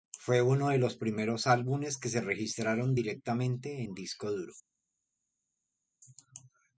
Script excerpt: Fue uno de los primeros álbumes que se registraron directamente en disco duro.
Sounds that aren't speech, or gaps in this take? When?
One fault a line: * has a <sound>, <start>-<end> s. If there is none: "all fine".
all fine